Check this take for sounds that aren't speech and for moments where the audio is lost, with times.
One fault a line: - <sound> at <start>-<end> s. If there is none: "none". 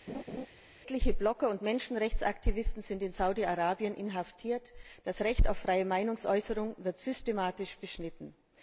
- laugh at 0.1-0.5 s